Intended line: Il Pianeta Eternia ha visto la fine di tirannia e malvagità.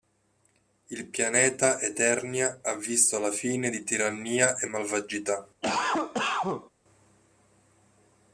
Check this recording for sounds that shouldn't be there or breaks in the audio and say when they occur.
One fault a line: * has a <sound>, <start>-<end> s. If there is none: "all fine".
* has a cough, 5.6-6.7 s